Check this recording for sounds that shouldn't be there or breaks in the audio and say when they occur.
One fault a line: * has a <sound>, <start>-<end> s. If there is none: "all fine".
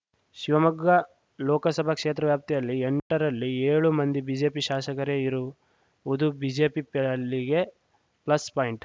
* has a dropout, 3.0-3.1 s